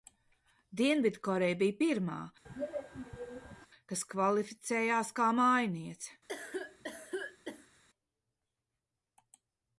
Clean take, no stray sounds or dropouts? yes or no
no